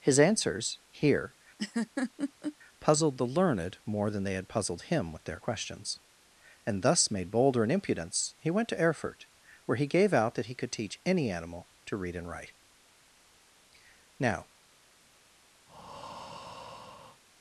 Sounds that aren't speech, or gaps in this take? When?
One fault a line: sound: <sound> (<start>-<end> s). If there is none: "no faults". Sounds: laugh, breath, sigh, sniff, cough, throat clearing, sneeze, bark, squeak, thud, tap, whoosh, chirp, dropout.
sound: laugh (1.6-2.6 s)
sound: breath (15.7-17.2 s)